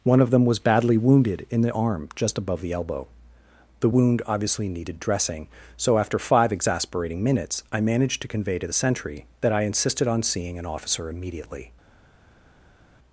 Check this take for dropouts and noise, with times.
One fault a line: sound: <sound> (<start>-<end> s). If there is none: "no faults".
no faults